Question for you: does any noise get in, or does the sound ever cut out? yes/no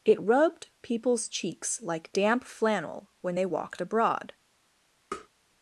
yes